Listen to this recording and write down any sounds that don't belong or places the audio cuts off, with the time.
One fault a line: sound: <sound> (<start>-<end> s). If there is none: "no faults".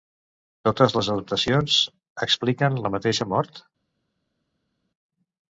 no faults